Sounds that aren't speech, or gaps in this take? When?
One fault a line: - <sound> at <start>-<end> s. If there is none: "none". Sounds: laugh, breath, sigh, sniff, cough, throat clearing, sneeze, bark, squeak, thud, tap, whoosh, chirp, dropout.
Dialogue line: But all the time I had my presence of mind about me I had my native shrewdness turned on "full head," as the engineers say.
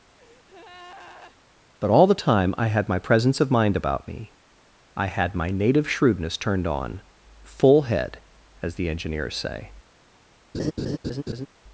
- breath at 0.2-1.4 s
- laugh at 10.5-11.5 s